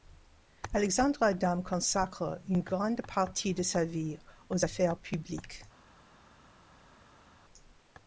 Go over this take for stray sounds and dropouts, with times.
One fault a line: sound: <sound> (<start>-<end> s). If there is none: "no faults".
no faults